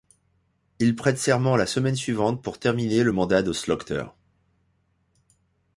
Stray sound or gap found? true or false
false